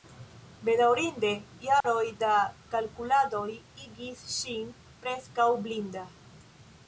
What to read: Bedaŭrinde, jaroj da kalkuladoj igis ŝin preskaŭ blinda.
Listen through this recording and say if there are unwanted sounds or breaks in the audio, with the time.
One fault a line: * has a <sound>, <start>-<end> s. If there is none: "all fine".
* has a dropout, 1.8-1.8 s